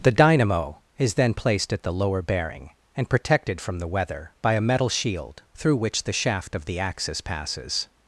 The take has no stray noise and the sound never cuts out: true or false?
true